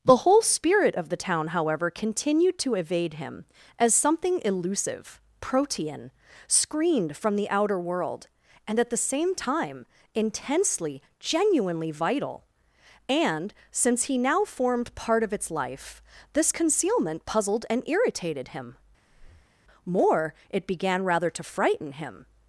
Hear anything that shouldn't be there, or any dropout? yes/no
yes